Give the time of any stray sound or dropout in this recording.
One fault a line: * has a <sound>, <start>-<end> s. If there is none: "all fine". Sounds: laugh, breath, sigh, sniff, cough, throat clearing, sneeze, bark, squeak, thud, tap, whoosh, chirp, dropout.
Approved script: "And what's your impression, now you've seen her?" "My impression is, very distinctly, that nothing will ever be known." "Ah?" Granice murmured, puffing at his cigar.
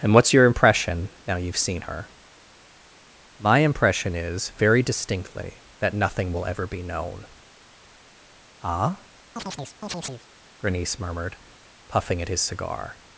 * has a chirp, 9.4-10.3 s